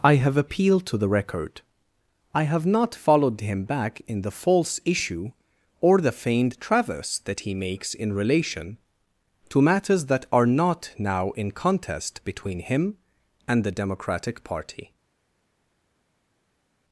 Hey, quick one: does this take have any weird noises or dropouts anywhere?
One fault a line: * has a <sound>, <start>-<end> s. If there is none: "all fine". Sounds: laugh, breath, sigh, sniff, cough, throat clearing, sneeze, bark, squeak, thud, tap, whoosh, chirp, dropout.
all fine